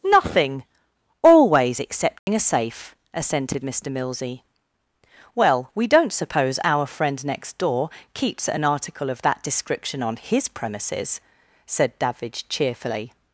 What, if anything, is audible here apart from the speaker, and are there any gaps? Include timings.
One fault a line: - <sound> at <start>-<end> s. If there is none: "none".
- dropout at 2.2-2.3 s